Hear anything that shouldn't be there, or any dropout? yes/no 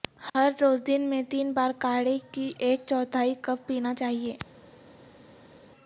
no